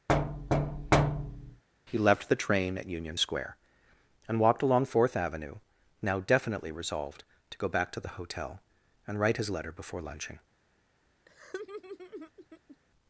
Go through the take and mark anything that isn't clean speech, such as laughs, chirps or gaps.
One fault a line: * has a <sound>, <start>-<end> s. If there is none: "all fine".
* has a thud, 0.1-1.6 s
* has a laugh, 11.3-12.8 s